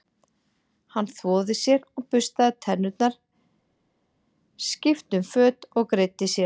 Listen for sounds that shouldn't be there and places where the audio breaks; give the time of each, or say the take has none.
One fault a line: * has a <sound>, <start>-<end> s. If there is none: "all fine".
all fine